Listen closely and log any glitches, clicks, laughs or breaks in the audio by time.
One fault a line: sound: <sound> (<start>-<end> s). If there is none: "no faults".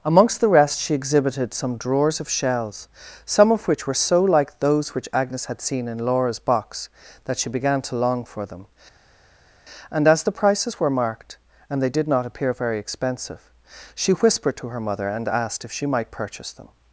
no faults